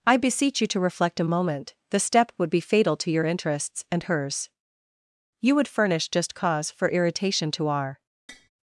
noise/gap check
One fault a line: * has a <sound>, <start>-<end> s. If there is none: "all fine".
* has a tap, 8.3-8.5 s